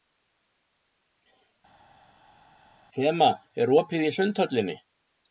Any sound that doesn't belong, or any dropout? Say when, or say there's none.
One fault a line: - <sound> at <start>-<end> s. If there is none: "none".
none